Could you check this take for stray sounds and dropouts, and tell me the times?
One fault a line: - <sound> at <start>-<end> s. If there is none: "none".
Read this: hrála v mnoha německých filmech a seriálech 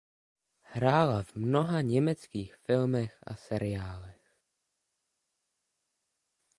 none